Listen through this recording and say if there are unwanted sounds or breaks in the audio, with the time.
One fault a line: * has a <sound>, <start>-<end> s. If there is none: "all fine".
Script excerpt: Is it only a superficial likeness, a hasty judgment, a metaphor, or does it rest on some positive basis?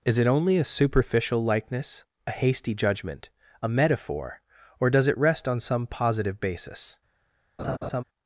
* has a laugh, 7.6-8.0 s